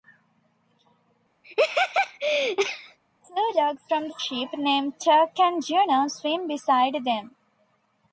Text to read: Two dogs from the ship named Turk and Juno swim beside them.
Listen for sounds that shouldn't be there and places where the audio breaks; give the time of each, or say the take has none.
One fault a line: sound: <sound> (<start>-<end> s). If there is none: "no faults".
sound: laugh (1.4-3.0 s)